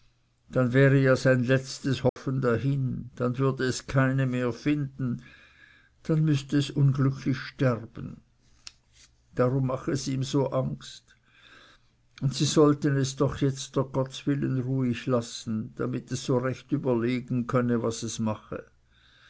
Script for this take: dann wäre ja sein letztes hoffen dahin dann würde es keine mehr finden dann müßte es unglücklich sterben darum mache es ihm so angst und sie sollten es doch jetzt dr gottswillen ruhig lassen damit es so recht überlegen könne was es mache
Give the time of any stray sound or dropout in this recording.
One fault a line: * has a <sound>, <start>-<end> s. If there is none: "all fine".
* has a dropout, 2.1-2.2 s